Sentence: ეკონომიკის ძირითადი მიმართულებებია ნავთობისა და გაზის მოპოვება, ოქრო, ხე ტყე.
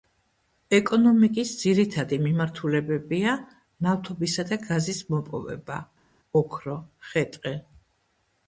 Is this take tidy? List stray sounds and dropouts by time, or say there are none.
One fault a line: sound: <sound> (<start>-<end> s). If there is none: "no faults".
no faults